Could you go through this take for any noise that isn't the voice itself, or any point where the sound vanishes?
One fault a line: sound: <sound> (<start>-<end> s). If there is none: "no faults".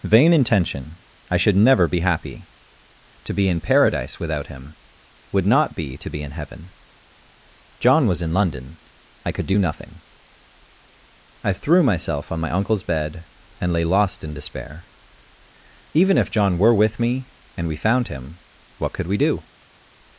no faults